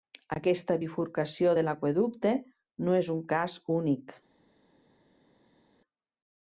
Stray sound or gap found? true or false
false